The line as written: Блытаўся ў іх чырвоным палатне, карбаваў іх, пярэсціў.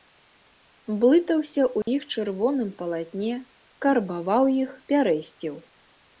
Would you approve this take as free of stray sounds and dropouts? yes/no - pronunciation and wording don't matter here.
no